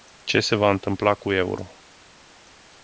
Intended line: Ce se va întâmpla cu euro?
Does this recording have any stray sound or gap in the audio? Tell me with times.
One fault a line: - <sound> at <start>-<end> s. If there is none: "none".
none